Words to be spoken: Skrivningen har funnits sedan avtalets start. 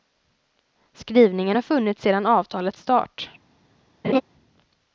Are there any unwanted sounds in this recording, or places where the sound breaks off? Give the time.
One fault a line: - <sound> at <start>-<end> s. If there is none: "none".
- laugh at 4.0-4.2 s